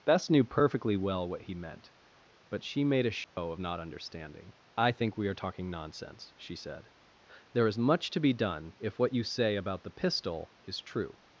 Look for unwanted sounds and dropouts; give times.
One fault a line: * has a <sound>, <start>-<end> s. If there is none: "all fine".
* has a dropout, 3.2-3.4 s